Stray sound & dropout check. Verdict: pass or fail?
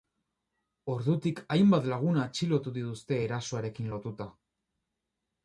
pass